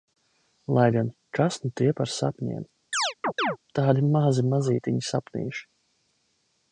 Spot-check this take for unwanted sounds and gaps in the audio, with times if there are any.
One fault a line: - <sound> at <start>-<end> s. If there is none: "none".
- chirp at 2.9-3.6 s